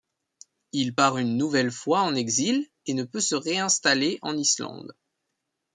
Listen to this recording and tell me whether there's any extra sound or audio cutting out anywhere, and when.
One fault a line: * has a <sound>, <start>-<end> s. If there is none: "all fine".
all fine